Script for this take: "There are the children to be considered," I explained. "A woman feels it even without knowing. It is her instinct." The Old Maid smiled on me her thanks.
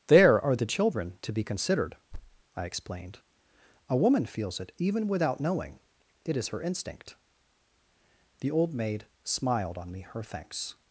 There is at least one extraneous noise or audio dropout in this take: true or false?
true